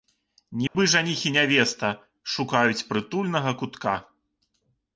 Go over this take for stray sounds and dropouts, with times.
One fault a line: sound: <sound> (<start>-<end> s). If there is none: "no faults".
sound: dropout (0.7-0.7 s)